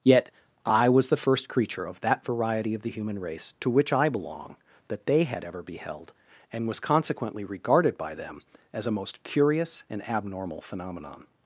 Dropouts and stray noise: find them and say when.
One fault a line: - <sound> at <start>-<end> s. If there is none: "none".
none